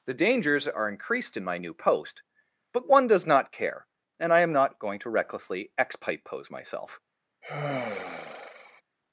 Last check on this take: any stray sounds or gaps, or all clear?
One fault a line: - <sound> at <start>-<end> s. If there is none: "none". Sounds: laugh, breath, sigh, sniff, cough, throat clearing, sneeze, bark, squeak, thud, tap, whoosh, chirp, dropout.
- sigh at 7.4-8.8 s